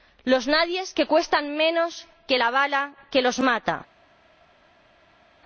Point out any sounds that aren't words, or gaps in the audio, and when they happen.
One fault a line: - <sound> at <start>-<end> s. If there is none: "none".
none